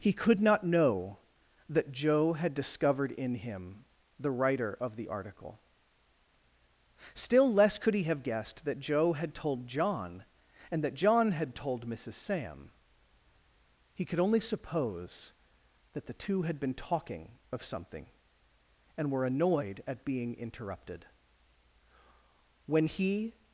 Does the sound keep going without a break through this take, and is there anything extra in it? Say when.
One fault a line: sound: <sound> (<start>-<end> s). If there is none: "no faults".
no faults